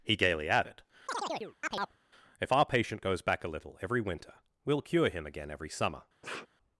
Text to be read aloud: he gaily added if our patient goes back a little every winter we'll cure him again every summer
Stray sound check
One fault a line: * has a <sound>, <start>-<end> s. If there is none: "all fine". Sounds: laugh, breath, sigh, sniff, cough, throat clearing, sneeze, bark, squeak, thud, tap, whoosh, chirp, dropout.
* has a chirp, 1.1-2.0 s
* has a sniff, 6.2-6.5 s